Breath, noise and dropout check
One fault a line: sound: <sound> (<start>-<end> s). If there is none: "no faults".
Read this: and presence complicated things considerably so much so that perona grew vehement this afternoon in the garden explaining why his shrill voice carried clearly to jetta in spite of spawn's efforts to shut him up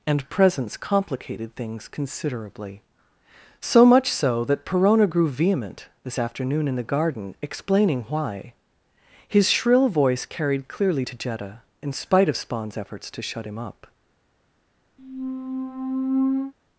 sound: squeak (15.0-16.5 s)